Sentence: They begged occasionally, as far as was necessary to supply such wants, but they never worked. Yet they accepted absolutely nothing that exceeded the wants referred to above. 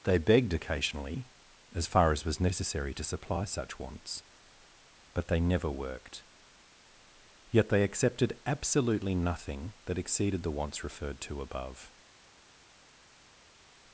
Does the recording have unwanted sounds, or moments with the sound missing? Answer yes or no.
no